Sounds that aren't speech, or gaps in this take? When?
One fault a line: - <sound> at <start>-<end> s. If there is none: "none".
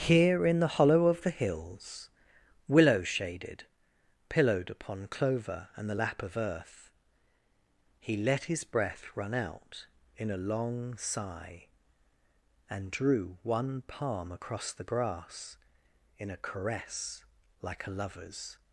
none